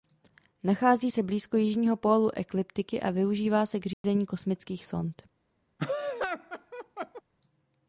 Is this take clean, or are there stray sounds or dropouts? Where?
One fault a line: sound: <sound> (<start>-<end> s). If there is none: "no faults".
sound: dropout (3.9-4.0 s)
sound: laugh (5.8-7.2 s)